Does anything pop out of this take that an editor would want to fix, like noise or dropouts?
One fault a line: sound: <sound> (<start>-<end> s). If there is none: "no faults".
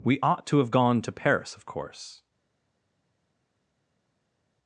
no faults